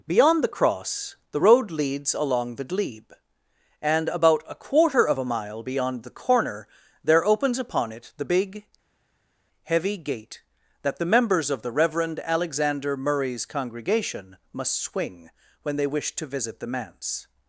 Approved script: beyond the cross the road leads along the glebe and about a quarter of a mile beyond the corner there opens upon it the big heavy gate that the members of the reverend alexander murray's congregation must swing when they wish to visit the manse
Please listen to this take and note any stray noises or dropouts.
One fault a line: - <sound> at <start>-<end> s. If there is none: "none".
none